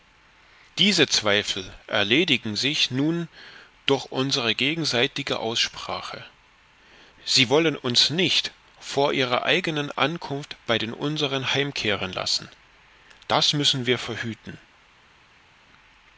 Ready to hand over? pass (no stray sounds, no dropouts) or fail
pass